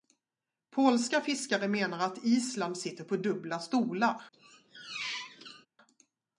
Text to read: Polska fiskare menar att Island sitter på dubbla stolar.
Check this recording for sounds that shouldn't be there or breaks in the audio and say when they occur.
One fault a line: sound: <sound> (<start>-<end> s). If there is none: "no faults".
sound: squeak (4.3-5.7 s)